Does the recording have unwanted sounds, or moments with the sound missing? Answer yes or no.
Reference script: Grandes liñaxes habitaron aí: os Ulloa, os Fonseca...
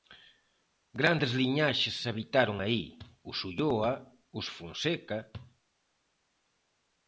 no